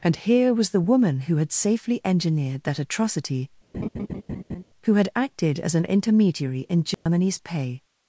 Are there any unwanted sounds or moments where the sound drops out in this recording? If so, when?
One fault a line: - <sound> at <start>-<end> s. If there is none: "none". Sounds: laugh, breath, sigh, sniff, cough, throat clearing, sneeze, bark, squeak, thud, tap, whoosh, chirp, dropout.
- laugh at 3.7-4.6 s
- dropout at 6.9-7.1 s